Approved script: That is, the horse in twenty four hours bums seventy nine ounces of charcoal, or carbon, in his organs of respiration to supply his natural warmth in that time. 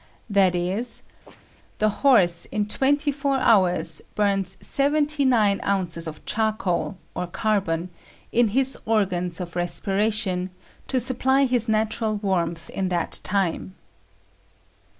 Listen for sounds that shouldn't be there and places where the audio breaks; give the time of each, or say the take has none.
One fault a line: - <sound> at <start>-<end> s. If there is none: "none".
- sneeze at 1.2-1.5 s